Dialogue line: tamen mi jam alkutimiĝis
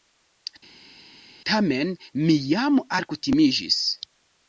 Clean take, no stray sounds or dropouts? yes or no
yes